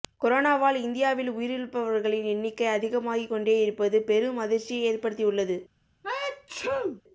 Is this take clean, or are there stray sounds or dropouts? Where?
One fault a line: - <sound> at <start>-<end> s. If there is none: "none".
- sneeze at 6.0-7.0 s